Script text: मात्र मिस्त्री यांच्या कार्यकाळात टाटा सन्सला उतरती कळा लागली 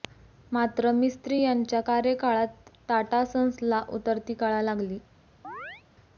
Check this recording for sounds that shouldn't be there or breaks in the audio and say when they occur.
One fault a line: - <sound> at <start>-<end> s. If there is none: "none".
- chirp at 5.4-5.8 s